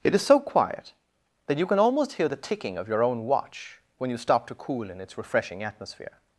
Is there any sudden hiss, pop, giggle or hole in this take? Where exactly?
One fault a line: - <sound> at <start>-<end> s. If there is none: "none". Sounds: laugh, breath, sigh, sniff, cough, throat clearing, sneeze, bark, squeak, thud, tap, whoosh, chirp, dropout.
none